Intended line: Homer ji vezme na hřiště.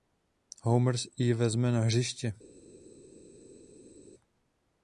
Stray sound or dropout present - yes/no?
no